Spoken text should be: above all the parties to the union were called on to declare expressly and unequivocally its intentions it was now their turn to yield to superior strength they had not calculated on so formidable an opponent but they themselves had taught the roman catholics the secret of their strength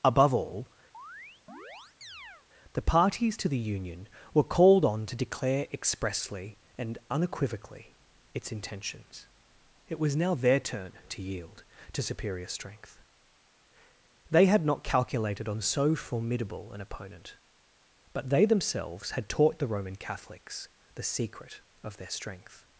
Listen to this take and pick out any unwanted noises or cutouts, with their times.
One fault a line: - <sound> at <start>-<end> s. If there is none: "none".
- chirp at 0.9-2.5 s